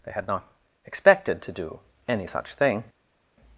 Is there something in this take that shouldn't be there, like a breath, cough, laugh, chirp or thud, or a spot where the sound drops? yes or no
no